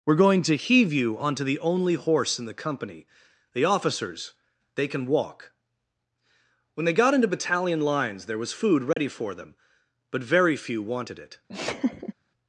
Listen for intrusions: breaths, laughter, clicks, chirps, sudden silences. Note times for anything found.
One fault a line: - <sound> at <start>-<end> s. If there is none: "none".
- dropout at 8.9-9.0 s
- laugh at 11.5-12.1 s